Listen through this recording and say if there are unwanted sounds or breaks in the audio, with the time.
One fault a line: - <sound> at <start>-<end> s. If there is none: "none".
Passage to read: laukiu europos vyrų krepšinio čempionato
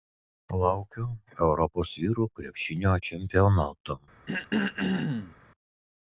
- throat clearing at 4.3-5.4 s